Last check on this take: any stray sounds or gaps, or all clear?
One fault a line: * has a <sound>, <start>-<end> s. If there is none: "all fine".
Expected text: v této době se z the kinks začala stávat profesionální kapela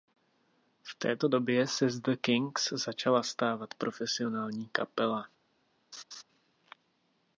* has a laugh, 5.9-6.2 s